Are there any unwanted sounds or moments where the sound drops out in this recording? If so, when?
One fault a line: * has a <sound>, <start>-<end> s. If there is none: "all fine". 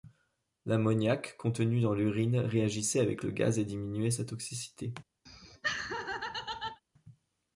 * has a laugh, 5.3-6.8 s